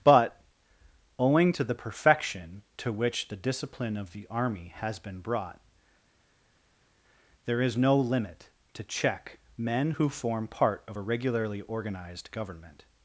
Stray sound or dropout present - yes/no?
no